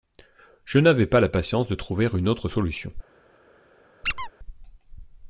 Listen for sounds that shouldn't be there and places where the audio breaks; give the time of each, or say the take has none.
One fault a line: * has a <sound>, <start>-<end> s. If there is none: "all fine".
* has a squeak, 4.0-4.3 s